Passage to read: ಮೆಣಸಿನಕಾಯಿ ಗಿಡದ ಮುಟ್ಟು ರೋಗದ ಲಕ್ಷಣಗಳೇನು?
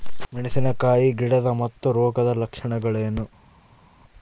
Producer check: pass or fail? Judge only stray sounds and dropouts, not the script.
pass